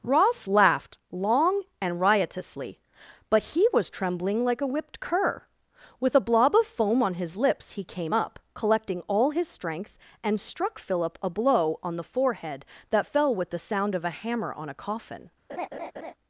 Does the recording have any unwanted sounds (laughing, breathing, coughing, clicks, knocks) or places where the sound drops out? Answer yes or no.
yes